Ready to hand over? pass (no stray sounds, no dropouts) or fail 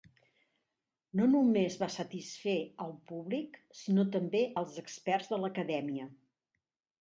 pass